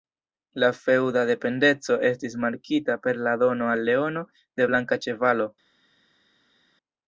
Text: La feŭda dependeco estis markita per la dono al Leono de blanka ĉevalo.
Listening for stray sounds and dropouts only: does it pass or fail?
pass